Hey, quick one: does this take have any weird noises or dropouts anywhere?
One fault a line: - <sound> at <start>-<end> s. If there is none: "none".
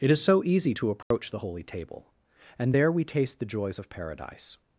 - dropout at 1.0-1.1 s